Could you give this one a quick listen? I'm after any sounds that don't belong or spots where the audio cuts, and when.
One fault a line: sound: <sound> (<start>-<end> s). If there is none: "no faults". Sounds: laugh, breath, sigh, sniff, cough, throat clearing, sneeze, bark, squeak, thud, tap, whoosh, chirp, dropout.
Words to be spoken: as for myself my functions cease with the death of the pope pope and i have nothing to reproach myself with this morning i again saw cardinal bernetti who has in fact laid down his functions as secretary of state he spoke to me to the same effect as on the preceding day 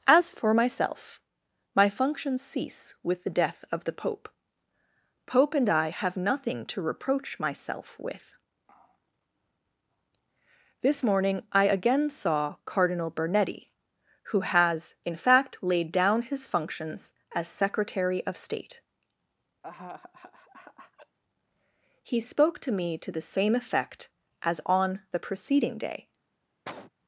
sound: laugh (19.6-21.2 s)
sound: cough (26.7-26.9 s)